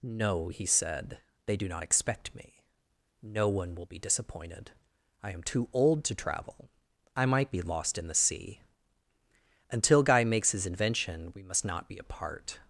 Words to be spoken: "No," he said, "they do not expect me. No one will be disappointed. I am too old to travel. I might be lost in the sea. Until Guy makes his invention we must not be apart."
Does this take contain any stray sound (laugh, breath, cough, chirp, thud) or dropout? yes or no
no